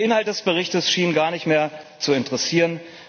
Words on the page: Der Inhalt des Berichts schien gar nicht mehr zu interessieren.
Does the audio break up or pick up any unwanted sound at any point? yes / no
no